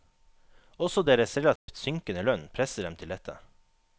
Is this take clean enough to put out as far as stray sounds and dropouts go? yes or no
no